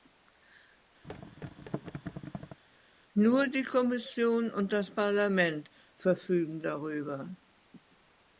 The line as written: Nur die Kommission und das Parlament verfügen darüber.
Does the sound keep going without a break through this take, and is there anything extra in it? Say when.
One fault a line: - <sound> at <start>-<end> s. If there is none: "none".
- thud at 1.0-2.6 s